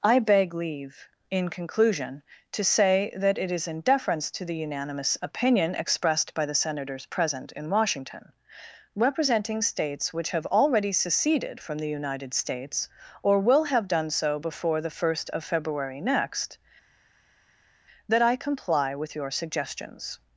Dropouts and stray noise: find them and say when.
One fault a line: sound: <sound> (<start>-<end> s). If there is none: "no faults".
no faults